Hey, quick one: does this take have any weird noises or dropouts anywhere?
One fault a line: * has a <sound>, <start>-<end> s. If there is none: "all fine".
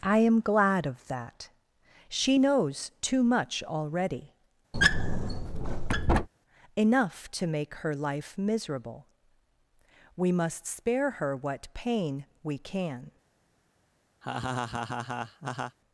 * has a squeak, 4.7-6.3 s
* has a laugh, 14.2-15.8 s